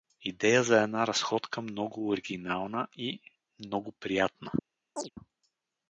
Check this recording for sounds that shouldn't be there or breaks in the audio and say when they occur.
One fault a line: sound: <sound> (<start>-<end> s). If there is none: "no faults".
sound: chirp (5.0-5.1 s)